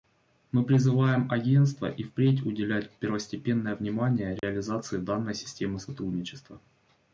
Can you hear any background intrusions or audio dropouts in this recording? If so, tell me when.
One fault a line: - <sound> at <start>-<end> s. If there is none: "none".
- dropout at 4.4-4.4 s